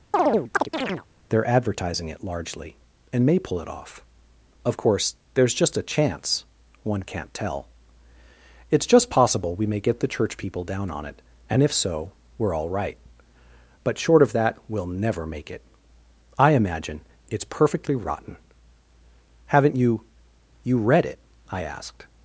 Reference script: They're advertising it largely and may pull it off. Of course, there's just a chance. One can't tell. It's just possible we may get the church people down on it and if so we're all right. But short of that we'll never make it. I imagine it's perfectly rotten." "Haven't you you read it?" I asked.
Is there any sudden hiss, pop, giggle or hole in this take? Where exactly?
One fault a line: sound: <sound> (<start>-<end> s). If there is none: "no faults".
sound: chirp (0.1-1.1 s)